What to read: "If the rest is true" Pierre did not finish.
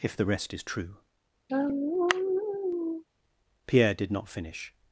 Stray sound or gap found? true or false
true